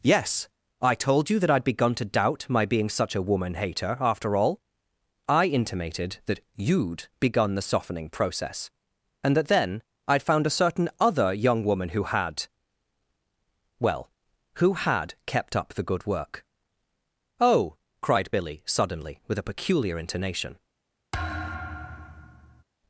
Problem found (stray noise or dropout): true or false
true